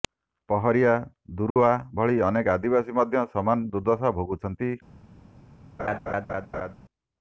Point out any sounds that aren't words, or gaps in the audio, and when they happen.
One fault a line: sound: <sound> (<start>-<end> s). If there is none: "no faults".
sound: dropout (1.5-1.6 s)
sound: laugh (5.8-6.7 s)